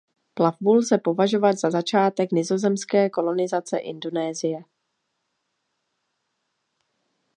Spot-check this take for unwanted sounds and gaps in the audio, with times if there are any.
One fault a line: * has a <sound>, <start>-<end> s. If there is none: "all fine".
all fine